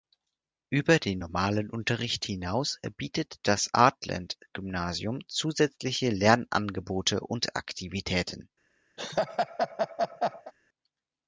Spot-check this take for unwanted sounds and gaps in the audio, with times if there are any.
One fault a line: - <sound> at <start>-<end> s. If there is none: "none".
- laugh at 9.0-10.5 s